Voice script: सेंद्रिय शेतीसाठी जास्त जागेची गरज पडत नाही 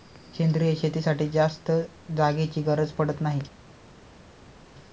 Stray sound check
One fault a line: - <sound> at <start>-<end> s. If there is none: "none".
none